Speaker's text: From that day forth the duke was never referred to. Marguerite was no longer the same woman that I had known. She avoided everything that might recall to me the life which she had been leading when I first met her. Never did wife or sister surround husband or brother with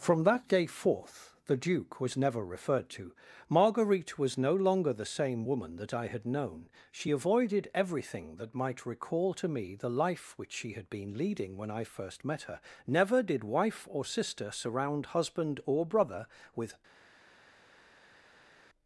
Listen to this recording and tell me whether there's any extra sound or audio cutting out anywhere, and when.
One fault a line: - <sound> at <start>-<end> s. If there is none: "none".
none